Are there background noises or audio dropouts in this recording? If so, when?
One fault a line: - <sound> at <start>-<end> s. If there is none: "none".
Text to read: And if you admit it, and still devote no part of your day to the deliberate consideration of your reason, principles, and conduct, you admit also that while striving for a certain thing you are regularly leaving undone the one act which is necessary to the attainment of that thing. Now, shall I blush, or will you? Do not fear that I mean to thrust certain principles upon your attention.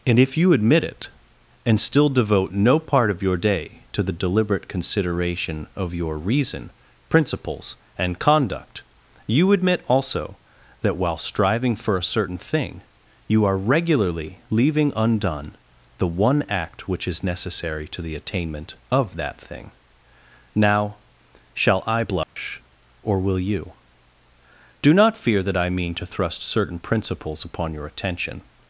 - dropout at 22.2-22.4 s